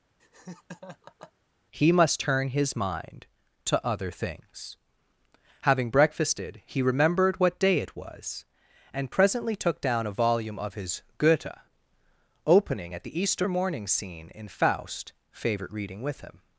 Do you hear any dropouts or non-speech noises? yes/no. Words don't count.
yes